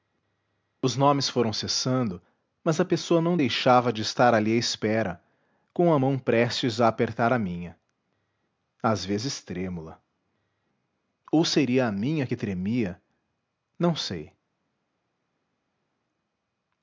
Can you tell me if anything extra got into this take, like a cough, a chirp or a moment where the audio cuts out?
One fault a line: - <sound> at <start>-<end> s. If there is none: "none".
none